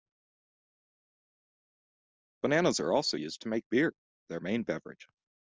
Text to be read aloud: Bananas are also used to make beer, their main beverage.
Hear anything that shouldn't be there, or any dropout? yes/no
no